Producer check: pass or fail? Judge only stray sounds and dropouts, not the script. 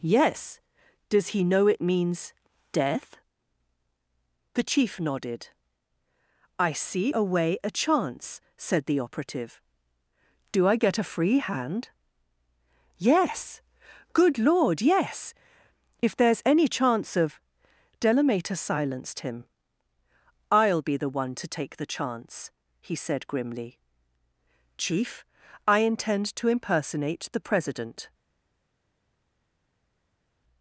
pass